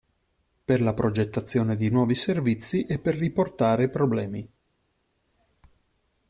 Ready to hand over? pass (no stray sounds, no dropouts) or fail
pass